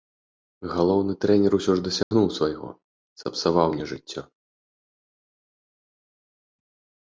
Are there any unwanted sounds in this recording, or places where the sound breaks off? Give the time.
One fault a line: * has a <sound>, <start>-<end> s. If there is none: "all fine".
* has a dropout, 2.0-2.1 s